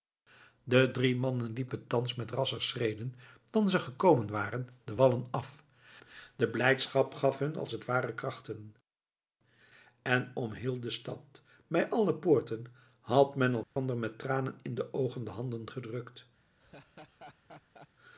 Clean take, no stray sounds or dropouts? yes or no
no